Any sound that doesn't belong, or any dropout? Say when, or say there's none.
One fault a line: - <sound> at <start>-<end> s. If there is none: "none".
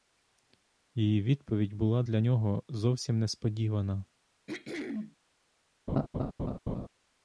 - throat clearing at 4.5-5.2 s
- laugh at 5.9-6.9 s